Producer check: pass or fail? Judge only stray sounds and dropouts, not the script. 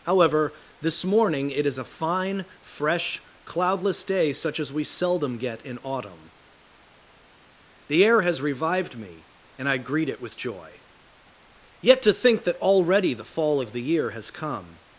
pass